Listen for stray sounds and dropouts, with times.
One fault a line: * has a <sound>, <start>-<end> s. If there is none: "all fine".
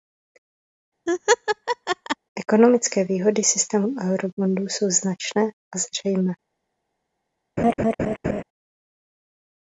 * has a laugh, 1.1-2.2 s
* has a laugh, 7.6-8.4 s